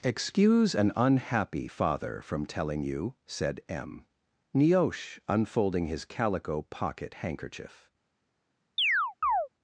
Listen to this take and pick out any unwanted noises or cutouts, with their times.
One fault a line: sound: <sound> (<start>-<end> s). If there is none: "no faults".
sound: chirp (8.8-9.5 s)